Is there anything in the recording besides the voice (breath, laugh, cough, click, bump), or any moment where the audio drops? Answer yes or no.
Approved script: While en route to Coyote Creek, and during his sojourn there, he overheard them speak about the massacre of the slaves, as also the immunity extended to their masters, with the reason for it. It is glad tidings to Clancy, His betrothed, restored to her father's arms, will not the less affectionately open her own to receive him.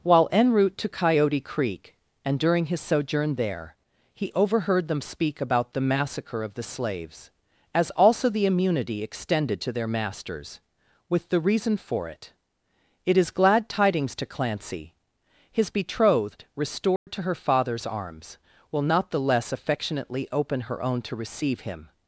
yes